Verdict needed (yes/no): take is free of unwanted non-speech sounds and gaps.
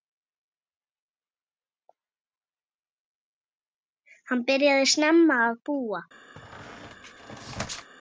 no